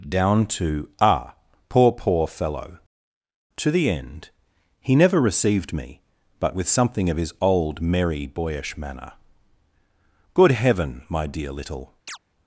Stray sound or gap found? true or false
true